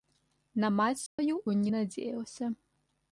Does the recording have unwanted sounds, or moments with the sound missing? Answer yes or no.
yes